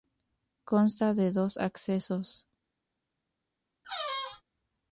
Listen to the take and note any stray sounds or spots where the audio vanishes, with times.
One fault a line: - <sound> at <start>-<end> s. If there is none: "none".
- squeak at 3.8-4.4 s